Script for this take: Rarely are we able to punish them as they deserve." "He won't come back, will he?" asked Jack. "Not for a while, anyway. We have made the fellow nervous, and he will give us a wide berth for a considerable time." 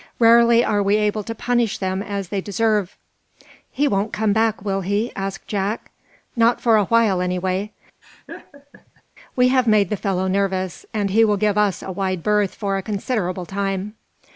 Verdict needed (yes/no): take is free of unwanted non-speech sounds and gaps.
no